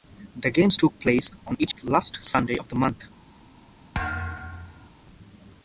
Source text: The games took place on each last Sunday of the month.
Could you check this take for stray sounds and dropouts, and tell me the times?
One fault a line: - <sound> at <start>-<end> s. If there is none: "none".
- dropout at 1.7-1.8 s
- thud at 3.9-4.9 s